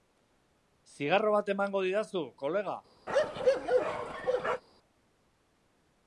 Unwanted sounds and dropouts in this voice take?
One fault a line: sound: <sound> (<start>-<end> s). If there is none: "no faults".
sound: bark (3.1-4.6 s)